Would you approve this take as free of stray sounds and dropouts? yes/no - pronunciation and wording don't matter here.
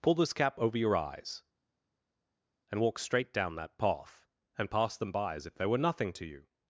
yes